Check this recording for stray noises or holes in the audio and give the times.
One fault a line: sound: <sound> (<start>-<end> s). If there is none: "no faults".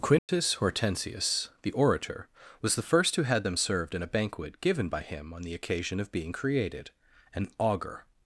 sound: dropout (0.2-0.3 s)